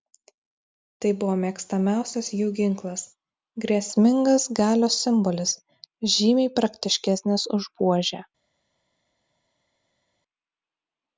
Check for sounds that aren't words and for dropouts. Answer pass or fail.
pass